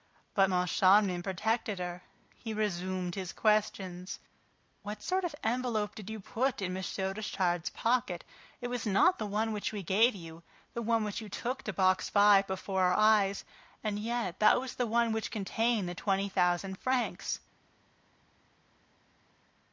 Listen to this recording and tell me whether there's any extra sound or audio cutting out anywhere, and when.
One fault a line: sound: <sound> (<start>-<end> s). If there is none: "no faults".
no faults